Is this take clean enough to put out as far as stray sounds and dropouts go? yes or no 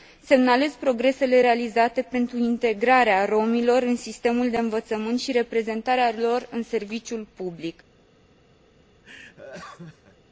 no